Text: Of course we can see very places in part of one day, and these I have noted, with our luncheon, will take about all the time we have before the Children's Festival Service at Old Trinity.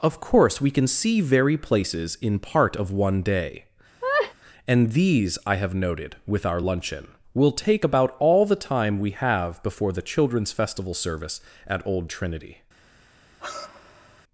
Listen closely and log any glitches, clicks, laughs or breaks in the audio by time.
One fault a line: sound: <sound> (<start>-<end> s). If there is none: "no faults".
sound: laugh (4.0-4.3 s)
sound: sigh (13.4-14.2 s)